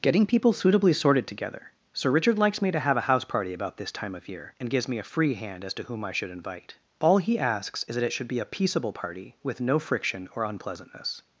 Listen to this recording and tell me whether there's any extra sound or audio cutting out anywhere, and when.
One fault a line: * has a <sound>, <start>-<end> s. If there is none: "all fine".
all fine